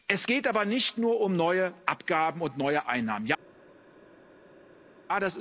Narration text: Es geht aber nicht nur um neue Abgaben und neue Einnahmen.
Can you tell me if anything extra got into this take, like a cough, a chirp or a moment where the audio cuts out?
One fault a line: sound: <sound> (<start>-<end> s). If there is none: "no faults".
no faults